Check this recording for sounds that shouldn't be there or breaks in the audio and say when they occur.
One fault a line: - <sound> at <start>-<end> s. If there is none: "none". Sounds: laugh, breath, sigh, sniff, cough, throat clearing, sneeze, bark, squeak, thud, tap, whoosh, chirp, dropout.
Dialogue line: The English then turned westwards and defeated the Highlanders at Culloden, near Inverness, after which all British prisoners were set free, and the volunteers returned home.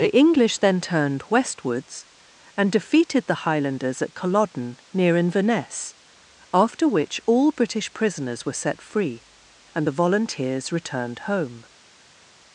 none